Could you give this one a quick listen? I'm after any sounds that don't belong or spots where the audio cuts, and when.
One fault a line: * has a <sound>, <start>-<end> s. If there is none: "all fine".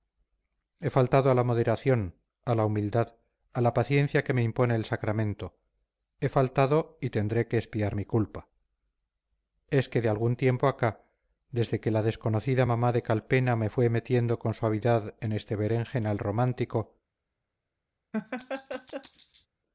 * has a laugh, 18.1-19.5 s